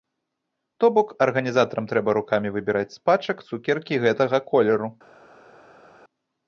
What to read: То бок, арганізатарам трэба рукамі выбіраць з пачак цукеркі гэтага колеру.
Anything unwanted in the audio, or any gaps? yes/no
no